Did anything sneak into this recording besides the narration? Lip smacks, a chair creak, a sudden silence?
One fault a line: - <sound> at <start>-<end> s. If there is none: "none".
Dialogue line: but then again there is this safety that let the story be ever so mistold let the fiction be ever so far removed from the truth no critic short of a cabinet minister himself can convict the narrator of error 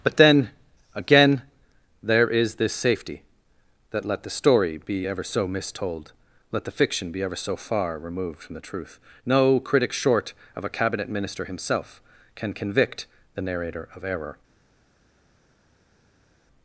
none